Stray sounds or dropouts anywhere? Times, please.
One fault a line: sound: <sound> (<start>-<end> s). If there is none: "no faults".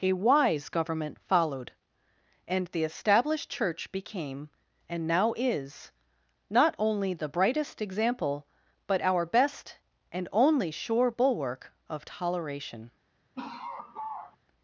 sound: laugh (13.4-14.4 s)